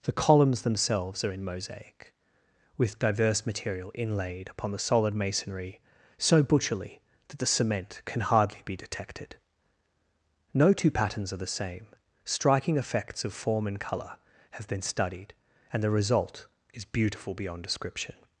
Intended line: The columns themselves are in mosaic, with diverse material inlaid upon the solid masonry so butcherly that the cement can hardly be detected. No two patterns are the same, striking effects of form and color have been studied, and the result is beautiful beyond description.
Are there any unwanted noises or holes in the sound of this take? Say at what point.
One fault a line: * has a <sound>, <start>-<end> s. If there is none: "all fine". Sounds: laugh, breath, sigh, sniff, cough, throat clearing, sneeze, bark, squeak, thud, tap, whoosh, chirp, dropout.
all fine